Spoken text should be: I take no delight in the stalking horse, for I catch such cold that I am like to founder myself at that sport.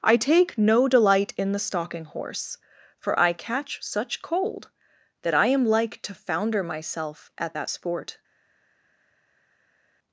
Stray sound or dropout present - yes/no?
no